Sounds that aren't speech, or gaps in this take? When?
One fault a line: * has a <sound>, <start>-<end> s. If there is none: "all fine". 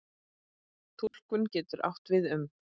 * has a dropout, 1.1-1.1 s